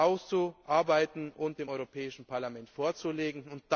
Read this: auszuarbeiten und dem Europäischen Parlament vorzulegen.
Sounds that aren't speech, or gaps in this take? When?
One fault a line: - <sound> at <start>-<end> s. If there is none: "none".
none